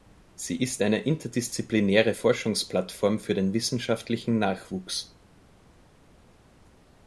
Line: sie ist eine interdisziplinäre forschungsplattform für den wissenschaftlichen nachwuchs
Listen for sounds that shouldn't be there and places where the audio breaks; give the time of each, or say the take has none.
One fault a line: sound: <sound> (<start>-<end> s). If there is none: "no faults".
no faults